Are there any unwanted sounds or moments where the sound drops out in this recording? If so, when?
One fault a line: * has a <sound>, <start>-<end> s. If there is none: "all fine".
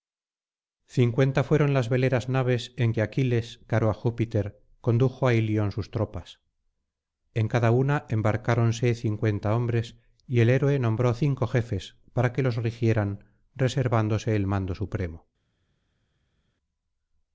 all fine